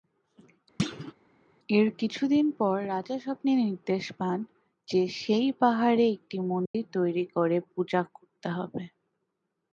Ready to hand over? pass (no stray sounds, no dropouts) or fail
fail